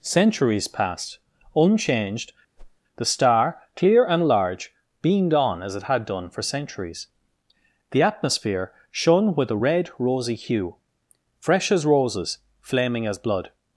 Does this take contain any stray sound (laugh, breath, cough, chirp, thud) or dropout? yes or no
yes